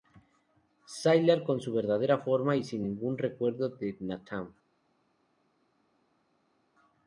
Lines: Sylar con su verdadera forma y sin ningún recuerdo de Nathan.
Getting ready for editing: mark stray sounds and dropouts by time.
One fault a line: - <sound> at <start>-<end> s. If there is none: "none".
none